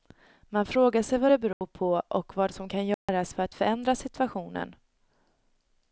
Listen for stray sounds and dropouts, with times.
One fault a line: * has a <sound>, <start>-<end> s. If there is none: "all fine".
* has a dropout, 1.5-1.6 s
* has a dropout, 2.9-3.1 s